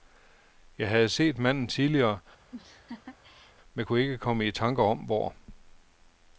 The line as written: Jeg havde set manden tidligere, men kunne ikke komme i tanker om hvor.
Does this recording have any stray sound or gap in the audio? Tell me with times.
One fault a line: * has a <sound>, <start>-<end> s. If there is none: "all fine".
* has a laugh, 2.5-3.6 s